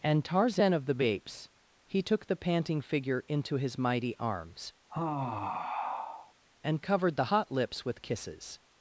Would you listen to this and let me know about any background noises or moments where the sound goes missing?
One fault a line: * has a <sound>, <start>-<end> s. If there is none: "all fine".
* has a sigh, 4.9-6.3 s